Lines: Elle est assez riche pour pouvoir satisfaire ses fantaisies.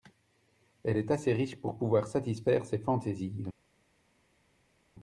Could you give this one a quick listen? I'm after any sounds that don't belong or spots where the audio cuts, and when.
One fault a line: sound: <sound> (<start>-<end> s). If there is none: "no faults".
no faults